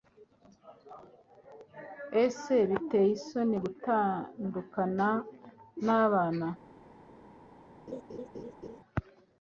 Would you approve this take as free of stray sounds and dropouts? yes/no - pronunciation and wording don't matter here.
no